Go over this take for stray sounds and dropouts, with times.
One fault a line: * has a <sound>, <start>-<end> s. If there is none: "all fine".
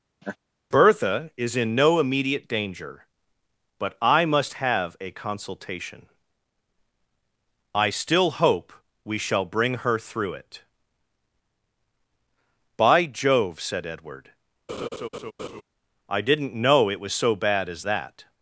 * has a laugh, 0.2-0.4 s
* has a laugh, 14.7-15.6 s